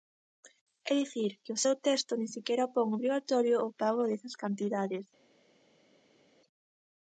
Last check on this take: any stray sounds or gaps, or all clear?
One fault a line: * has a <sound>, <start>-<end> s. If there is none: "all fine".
all fine